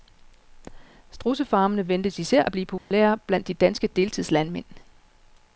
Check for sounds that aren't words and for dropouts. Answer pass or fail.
fail